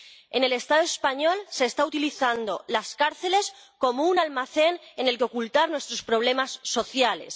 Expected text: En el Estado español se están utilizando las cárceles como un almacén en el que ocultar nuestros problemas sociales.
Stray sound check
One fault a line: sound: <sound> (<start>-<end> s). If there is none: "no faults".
no faults